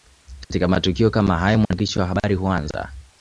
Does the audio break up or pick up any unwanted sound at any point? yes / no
yes